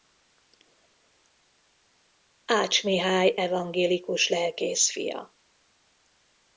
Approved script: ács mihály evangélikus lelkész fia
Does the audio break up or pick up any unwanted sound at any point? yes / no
no